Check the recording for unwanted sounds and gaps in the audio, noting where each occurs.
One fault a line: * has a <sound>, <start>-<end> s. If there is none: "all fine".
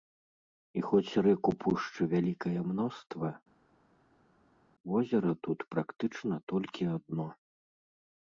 all fine